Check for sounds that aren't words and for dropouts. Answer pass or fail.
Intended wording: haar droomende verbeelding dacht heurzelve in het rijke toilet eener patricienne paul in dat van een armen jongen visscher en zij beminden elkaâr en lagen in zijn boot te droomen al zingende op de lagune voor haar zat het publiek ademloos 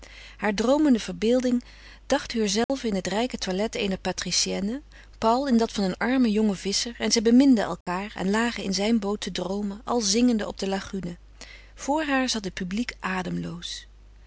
fail